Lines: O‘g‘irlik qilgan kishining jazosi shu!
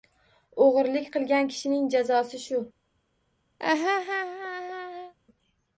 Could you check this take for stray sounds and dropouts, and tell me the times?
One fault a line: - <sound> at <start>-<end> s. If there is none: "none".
- laugh at 3.6-5.1 s